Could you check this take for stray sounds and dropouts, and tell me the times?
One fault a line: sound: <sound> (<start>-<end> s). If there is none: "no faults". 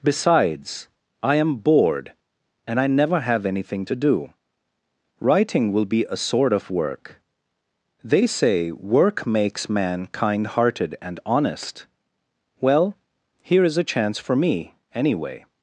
no faults